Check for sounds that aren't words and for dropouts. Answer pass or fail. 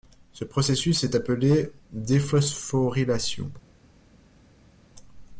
pass